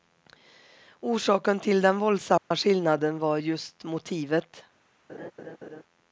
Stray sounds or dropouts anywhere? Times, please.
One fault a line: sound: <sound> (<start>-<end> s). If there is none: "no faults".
sound: dropout (2.4-2.5 s)
sound: laugh (5.1-5.8 s)